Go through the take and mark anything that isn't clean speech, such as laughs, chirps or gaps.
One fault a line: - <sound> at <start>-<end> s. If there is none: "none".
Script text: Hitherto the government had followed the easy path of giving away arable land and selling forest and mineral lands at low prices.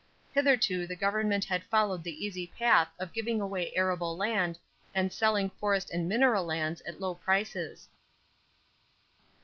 none